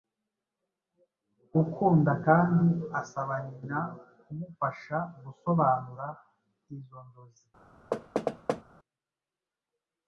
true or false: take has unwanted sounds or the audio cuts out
true